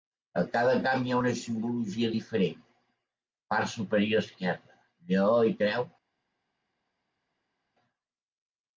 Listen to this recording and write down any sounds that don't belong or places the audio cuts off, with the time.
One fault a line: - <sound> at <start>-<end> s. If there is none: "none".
none